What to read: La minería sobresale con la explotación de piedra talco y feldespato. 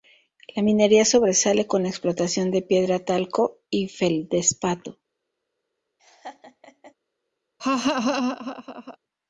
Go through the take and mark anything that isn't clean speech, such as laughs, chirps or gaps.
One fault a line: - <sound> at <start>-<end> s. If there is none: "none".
- laugh at 6.0-6.9 s
- laugh at 7.6-9.0 s